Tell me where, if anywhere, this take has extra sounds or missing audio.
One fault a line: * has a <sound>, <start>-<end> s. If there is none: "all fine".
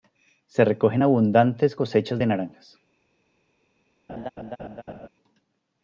* has a laugh, 4.1-5.1 s